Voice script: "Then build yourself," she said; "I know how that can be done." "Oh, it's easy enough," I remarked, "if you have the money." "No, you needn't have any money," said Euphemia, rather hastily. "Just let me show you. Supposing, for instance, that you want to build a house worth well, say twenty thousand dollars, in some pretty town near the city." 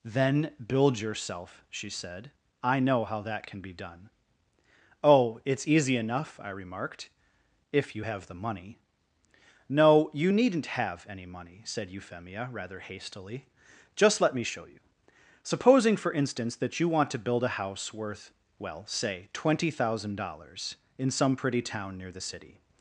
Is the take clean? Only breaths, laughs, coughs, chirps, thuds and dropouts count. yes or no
yes